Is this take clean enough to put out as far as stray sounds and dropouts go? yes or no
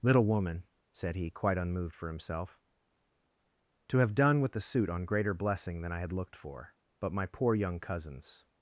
yes